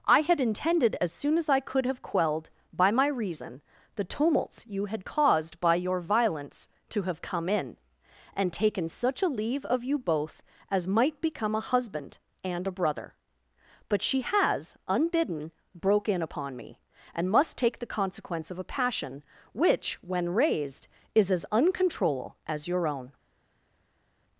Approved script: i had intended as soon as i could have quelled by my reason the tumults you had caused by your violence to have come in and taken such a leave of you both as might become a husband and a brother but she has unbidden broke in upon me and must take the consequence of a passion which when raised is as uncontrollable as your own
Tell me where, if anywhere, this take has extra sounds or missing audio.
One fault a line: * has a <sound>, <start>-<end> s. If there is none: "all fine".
all fine